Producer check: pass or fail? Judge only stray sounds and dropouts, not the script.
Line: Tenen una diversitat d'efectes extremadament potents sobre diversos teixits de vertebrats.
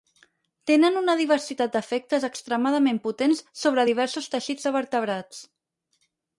pass